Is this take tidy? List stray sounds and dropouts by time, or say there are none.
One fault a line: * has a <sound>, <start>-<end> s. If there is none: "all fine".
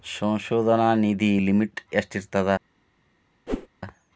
* has a whoosh, 3.5-3.7 s